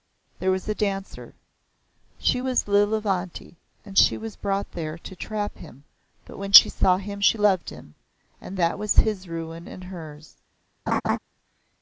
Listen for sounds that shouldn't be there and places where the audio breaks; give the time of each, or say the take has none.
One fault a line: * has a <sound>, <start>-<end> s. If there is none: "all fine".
* has a laugh, 10.9-11.2 s